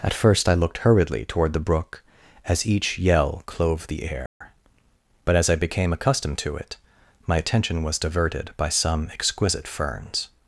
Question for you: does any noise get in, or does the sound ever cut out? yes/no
yes